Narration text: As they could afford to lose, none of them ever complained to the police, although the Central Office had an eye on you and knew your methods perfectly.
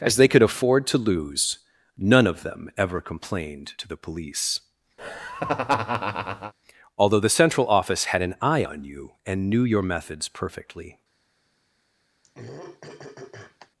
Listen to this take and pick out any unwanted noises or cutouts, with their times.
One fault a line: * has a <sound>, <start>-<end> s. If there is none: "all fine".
* has a laugh, 5.0-6.5 s
* has a throat clearing, 12.2-13.7 s